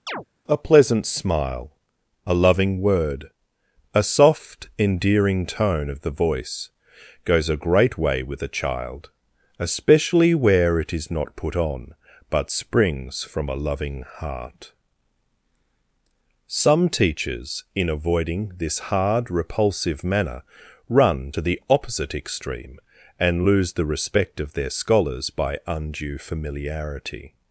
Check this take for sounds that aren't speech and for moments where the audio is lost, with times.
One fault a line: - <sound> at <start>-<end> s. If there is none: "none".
- chirp at 0.1-0.2 s